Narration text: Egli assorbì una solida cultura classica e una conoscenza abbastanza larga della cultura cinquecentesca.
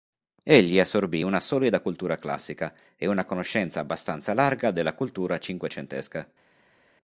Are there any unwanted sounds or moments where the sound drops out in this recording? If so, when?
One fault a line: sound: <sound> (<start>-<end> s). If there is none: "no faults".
no faults